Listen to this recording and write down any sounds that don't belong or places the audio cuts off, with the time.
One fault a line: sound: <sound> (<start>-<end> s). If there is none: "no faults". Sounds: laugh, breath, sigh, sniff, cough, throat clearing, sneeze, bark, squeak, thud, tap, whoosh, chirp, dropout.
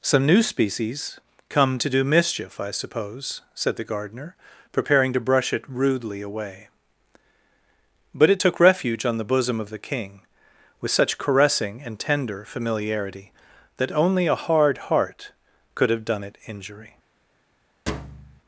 sound: thud (17.9-18.4 s)